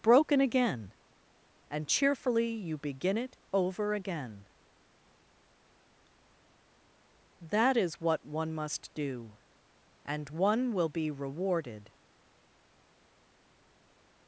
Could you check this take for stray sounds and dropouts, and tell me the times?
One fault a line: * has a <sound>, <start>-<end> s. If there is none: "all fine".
all fine